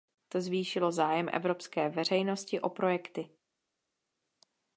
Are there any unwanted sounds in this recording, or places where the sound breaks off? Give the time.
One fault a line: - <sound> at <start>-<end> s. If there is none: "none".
none